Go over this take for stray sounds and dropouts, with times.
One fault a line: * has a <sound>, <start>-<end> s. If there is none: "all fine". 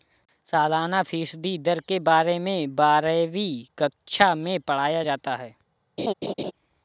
* has a laugh, 6.0-6.5 s